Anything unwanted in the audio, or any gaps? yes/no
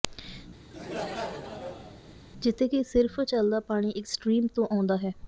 yes